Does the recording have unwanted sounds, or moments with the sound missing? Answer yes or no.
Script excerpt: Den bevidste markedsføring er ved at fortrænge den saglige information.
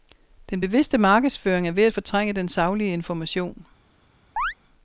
yes